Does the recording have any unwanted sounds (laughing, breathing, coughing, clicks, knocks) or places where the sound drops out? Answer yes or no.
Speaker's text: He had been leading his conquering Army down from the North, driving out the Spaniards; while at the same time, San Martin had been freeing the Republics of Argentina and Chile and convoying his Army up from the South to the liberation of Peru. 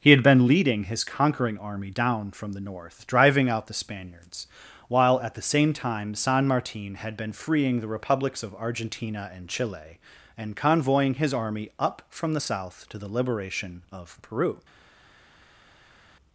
no